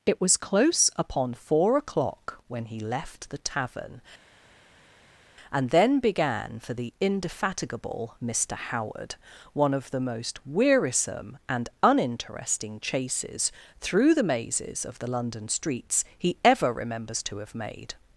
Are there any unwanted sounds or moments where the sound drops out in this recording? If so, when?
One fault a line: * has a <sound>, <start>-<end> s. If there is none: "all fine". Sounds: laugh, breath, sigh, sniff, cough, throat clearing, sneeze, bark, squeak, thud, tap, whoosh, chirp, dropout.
all fine